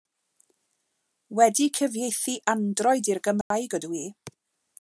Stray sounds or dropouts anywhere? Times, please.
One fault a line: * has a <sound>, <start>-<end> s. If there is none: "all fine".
* has a dropout, 3.4-3.5 s